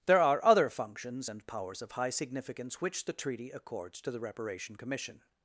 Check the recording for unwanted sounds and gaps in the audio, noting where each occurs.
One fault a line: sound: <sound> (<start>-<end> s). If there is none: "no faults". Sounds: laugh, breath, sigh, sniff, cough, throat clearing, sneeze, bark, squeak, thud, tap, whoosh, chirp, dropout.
no faults